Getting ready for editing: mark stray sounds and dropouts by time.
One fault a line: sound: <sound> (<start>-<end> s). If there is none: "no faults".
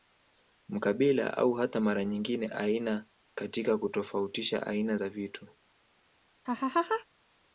sound: laugh (6.4-7.0 s)